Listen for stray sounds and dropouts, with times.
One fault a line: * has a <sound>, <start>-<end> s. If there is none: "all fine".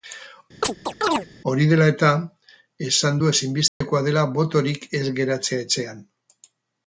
* has a chirp, 0.6-1.3 s
* has a dropout, 3.7-3.8 s